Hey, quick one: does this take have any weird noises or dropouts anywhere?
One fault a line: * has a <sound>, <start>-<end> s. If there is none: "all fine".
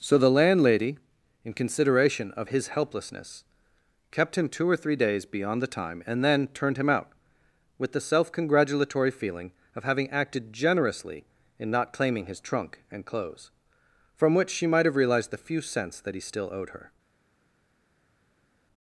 all fine